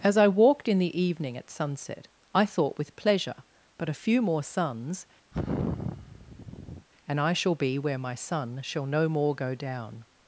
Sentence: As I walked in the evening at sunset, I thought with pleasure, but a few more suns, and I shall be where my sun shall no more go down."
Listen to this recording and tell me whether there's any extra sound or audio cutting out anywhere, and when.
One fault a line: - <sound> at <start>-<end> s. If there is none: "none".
- sigh at 5.3-6.9 s